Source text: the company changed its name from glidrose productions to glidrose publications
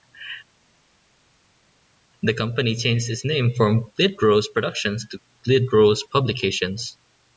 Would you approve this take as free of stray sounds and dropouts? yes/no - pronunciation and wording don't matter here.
yes